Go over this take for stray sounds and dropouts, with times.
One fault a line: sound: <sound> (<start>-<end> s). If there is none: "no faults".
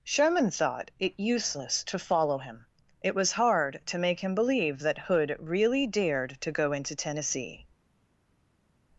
no faults